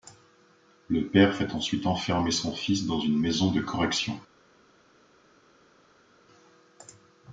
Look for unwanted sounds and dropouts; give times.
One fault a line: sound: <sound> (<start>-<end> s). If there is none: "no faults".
no faults